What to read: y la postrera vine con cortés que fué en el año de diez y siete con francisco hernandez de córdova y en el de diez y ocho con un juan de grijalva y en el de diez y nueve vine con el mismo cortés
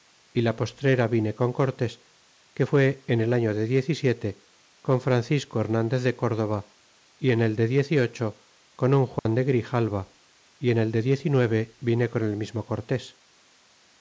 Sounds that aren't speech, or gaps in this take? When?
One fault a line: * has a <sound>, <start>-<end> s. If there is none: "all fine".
* has a dropout, 9.2-9.3 s